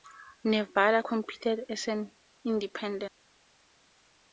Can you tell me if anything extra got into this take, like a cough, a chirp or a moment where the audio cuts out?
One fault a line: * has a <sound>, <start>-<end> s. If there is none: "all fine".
all fine